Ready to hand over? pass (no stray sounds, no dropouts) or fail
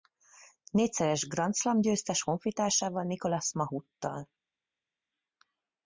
pass